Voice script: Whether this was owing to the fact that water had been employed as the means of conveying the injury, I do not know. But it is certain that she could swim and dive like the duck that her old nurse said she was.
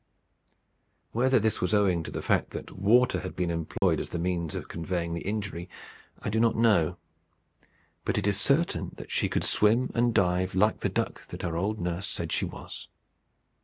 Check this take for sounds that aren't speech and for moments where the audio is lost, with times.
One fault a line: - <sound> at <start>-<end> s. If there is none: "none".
- dropout at 3.8-3.8 s